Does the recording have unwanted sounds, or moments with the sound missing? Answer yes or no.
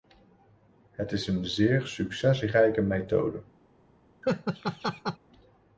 yes